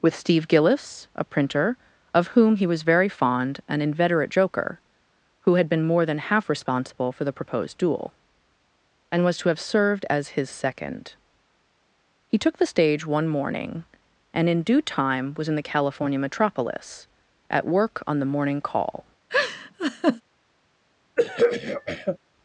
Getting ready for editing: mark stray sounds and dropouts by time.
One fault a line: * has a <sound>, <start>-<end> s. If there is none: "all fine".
* has a laugh, 19.3-20.2 s
* has a throat clearing, 21.2-22.2 s